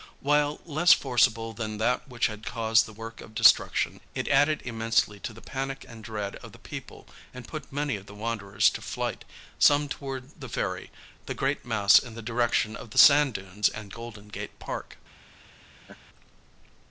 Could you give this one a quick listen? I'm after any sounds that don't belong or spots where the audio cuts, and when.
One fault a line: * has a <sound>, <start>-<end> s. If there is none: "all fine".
* has a laugh, 15.8-16.0 s